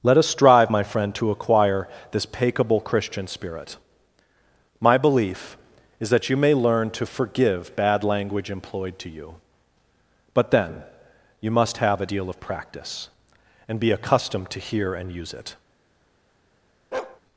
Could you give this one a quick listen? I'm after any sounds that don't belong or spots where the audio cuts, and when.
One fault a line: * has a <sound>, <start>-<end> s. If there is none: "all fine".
* has a bark, 16.9-17.2 s